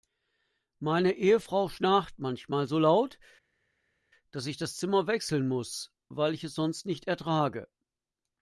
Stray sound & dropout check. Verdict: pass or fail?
pass